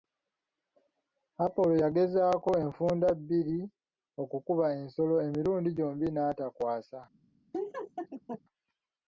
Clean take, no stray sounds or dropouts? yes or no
no